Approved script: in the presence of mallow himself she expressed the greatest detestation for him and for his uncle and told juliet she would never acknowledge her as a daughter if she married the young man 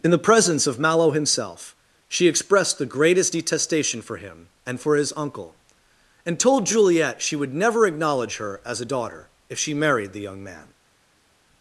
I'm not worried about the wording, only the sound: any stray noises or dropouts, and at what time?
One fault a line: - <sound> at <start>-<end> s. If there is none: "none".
none